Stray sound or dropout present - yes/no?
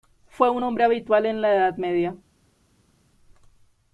no